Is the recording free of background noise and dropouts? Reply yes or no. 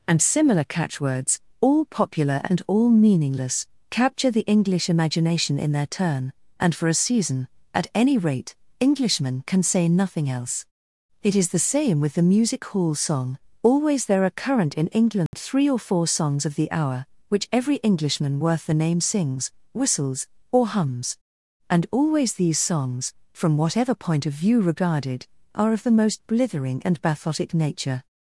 no